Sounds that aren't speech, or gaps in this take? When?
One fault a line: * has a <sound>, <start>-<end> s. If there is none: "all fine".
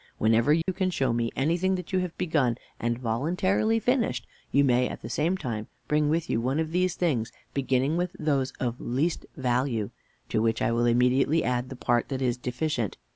* has a dropout, 0.6-0.7 s